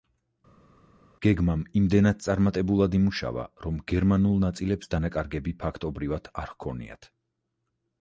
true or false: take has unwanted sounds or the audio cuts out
false